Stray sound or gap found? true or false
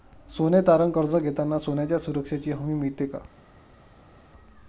false